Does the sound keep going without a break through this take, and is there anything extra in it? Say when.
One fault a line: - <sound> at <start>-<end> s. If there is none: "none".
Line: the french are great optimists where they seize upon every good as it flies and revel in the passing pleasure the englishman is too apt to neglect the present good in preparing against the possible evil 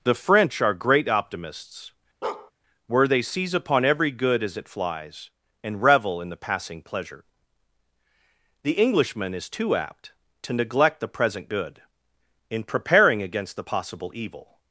- bark at 2.2-2.5 s